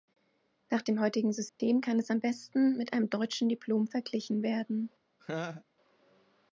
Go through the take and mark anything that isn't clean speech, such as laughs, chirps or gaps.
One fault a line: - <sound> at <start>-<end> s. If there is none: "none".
- dropout at 1.5-1.6 s
- laugh at 5.2-5.6 s